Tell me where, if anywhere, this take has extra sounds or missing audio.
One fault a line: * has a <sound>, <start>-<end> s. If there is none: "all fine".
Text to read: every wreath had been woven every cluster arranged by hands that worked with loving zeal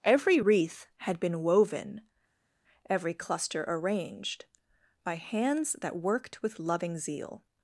all fine